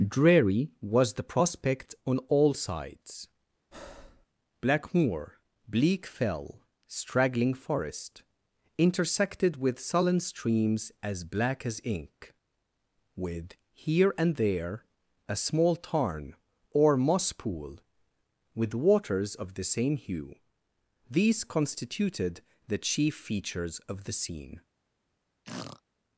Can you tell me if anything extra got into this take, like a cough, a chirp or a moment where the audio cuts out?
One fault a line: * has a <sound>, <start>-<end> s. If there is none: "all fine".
* has a breath, 3.7-4.3 s
* has a throat clearing, 25.4-25.8 s